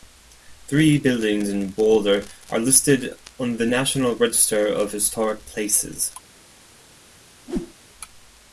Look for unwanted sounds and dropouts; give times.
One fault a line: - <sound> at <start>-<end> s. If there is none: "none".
- whoosh at 7.5-7.7 s